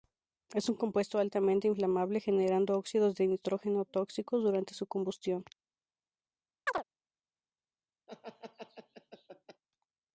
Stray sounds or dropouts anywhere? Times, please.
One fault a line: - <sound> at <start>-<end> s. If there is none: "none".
- chirp at 6.7-6.8 s
- laugh at 8.1-9.6 s